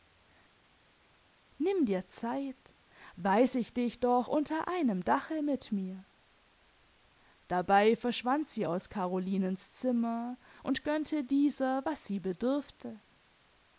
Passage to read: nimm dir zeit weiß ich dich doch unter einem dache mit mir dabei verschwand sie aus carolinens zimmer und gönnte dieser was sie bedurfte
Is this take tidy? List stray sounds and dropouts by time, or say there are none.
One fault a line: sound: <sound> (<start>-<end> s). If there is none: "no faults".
no faults